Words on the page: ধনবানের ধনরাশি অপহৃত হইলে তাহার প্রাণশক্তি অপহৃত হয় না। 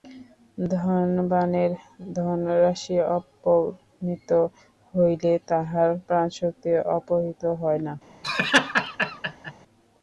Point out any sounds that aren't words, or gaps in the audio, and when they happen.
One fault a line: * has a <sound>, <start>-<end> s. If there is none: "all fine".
* has a laugh, 8.2-9.5 s